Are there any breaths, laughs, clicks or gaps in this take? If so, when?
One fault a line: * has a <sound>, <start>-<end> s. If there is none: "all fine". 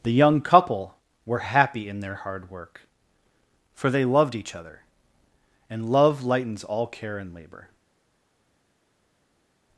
all fine